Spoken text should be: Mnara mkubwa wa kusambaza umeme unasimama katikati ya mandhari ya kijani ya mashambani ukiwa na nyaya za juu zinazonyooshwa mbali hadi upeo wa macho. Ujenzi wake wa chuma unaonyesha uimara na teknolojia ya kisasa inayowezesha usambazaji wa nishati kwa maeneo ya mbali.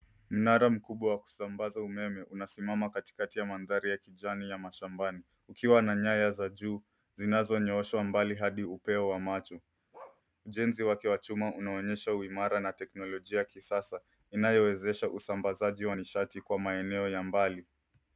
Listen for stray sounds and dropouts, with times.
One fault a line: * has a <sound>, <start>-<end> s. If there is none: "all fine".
* has a bark, 9.9-10.2 s